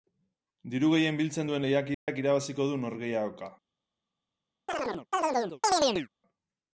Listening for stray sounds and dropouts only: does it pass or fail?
fail